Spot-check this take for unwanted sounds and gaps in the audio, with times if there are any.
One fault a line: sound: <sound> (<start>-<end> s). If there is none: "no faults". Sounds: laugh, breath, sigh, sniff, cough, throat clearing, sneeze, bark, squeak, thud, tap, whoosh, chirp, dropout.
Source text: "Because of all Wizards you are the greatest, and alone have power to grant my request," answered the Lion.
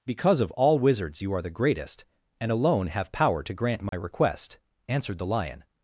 sound: dropout (3.9-3.9 s)